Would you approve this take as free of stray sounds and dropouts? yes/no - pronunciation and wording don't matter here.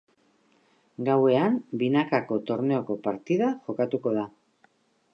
yes